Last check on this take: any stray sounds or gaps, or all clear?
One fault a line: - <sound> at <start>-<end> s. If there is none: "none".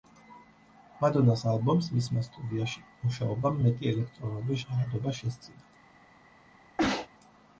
- sneeze at 6.8-7.1 s